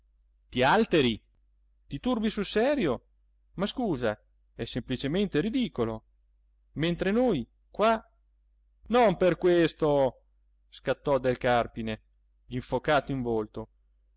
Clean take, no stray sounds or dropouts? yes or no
yes